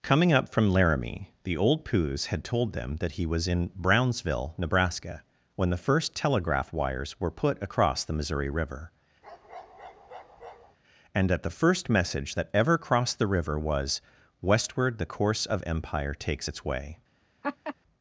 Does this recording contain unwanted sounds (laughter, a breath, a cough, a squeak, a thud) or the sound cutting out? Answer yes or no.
yes